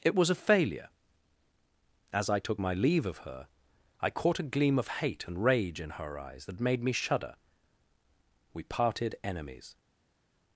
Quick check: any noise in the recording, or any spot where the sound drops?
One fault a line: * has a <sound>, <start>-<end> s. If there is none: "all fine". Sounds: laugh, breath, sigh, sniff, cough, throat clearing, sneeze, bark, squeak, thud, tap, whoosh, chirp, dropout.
all fine